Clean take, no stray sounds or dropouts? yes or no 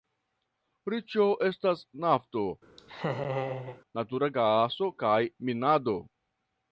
no